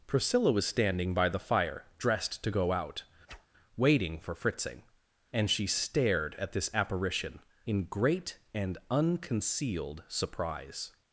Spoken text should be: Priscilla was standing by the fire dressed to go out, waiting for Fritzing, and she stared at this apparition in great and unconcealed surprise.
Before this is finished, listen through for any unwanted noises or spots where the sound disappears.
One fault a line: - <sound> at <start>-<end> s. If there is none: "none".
- whoosh at 3.3-3.5 s